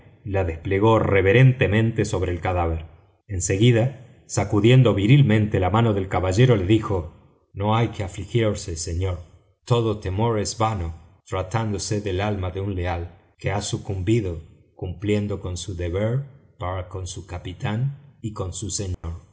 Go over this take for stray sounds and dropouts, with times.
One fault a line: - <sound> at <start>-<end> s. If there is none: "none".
- dropout at 18.9-19.0 s